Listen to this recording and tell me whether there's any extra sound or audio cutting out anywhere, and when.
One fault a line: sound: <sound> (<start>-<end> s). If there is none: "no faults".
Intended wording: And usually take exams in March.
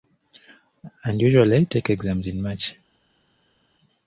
no faults